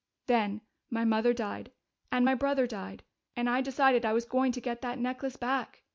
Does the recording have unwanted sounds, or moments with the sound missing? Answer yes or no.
no